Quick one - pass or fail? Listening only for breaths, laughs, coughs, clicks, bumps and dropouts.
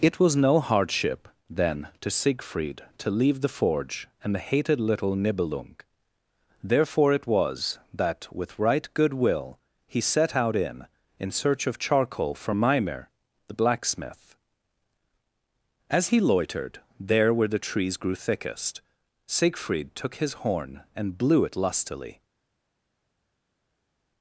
pass